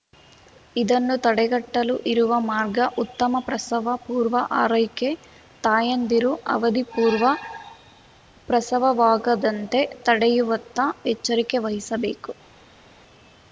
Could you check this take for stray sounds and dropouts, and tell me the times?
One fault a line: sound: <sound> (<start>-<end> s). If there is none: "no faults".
no faults